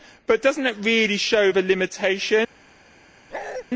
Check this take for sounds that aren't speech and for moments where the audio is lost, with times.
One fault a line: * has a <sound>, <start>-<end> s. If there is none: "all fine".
* has a bark, 3.3-3.6 s